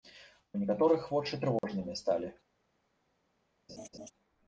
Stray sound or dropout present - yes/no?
yes